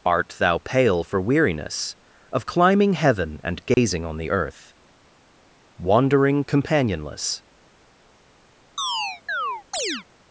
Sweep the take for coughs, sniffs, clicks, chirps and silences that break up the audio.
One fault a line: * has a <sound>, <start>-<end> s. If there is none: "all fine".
* has a dropout, 3.7-3.8 s
* has a chirp, 8.8-10.0 s